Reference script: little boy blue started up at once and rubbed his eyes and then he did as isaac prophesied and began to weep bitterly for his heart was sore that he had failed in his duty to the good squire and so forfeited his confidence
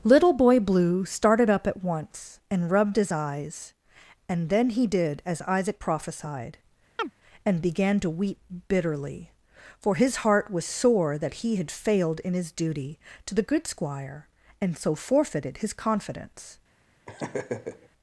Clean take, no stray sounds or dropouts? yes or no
no